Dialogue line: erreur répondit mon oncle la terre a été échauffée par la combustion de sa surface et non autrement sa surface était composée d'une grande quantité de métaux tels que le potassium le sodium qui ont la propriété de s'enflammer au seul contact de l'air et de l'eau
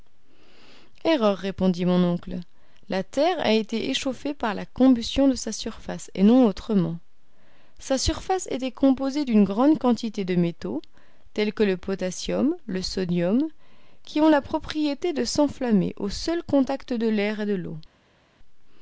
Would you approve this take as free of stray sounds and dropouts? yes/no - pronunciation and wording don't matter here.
yes